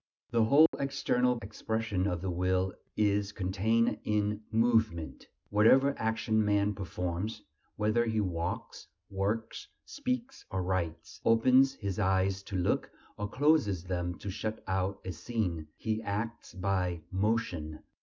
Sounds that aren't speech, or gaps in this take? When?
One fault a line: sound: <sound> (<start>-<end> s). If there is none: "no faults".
sound: dropout (0.7-0.7 s)